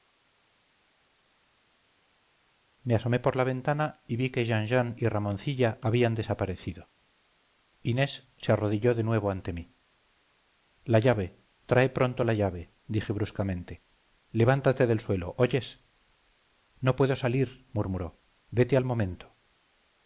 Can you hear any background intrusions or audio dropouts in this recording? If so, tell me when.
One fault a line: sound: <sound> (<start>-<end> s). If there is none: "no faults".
no faults